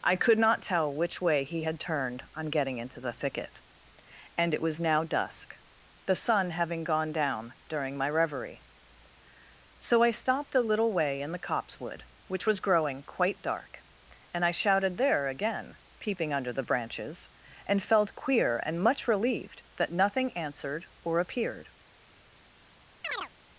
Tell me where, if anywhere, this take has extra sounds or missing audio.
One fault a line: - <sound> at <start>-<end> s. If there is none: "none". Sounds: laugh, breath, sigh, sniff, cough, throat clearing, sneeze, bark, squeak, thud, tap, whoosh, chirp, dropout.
- chirp at 23.0-23.3 s